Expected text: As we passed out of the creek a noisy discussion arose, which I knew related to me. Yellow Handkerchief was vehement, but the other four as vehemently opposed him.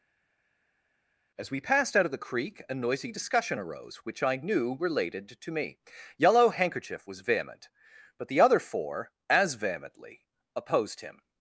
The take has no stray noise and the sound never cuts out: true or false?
true